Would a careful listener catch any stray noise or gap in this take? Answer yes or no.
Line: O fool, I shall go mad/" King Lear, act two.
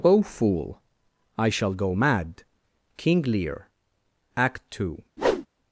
yes